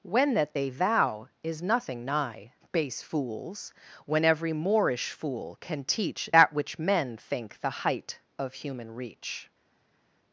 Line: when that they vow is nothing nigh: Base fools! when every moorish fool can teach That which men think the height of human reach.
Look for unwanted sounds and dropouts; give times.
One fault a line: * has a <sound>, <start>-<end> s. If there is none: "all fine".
all fine